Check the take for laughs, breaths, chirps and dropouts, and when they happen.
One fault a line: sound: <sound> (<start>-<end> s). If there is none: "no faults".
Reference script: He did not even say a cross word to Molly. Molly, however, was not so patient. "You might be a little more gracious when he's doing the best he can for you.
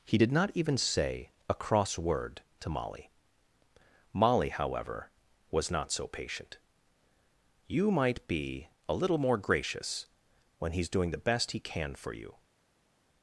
no faults